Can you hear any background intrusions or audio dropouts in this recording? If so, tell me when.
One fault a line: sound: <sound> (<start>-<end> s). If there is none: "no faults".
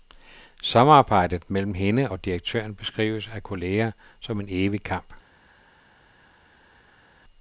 no faults